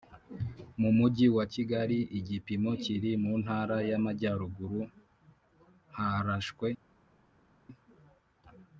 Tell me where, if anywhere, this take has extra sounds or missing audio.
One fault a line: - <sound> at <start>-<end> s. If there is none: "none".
none